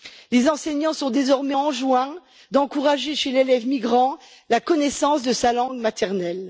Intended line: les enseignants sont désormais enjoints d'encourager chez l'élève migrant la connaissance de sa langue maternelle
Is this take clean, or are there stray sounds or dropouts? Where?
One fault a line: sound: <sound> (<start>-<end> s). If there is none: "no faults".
no faults